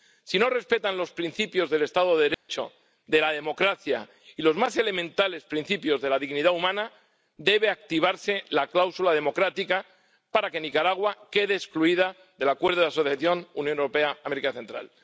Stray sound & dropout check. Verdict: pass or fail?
fail